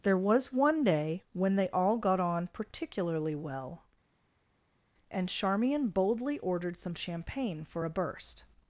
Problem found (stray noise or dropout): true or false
false